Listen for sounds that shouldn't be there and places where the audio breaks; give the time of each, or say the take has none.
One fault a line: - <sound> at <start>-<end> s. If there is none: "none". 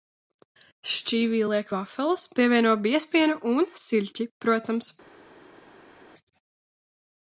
none